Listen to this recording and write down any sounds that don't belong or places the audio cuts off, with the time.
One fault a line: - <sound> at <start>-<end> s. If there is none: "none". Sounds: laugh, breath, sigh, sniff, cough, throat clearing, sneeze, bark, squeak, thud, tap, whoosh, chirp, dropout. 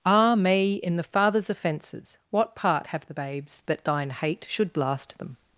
none